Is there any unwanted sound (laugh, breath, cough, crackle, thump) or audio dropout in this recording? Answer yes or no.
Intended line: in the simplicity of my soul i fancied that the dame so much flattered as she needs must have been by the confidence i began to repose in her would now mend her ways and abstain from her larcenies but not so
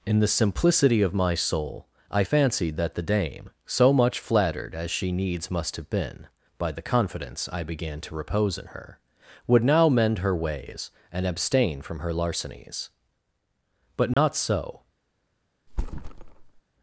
yes